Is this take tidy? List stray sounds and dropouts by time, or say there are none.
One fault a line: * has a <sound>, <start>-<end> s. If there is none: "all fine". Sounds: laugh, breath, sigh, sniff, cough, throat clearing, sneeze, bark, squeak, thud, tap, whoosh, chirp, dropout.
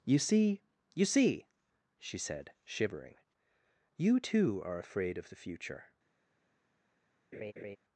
* has a laugh, 7.3-7.8 s